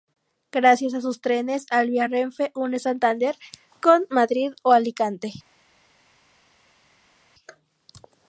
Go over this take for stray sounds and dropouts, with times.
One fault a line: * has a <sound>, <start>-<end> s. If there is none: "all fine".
all fine